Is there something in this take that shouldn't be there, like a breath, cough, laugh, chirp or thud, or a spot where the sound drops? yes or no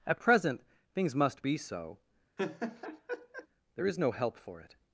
yes